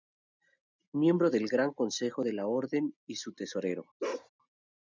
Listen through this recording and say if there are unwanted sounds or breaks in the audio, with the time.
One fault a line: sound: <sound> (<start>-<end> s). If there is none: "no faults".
sound: bark (4.0-4.3 s)